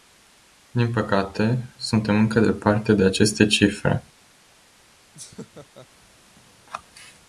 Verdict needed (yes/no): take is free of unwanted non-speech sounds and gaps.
no